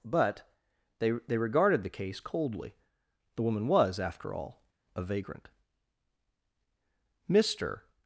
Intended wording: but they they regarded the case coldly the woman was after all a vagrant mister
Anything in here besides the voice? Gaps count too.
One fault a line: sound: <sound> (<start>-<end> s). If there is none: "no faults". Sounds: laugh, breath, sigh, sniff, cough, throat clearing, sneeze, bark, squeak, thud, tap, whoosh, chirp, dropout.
no faults